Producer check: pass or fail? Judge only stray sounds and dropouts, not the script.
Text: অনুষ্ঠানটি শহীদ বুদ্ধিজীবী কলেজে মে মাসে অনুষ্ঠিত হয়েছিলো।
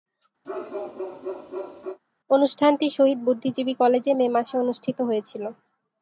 fail